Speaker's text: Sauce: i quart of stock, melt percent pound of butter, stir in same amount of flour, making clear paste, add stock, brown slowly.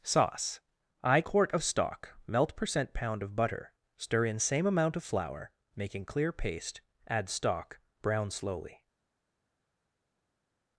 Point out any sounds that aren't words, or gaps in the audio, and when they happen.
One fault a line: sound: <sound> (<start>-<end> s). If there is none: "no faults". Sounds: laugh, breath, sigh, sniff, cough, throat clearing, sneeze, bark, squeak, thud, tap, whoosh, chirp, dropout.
no faults